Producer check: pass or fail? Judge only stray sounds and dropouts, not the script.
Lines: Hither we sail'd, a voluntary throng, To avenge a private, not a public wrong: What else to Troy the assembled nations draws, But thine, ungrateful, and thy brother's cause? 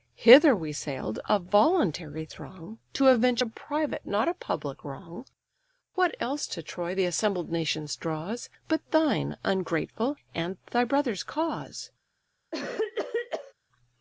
fail